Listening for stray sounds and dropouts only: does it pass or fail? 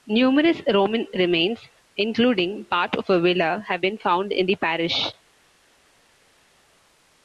pass